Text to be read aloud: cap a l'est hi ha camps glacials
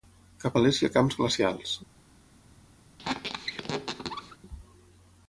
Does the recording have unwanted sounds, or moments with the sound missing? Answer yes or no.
yes